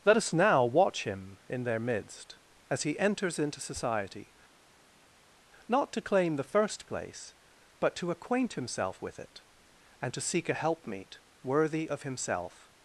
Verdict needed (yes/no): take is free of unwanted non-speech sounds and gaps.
yes